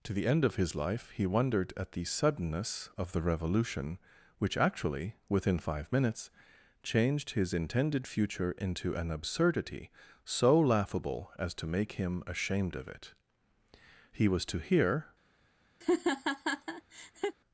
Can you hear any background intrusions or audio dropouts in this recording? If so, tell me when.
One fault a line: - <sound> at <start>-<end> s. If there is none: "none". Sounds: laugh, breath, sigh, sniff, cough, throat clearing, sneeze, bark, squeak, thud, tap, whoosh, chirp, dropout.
- laugh at 15.8-17.4 s